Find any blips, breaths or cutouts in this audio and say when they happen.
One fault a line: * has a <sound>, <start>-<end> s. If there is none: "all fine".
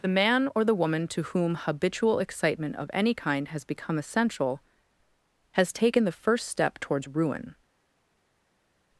all fine